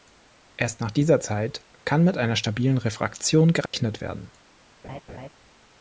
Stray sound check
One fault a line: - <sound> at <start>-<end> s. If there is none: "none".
- dropout at 3.7-3.7 s
- laugh at 4.8-5.3 s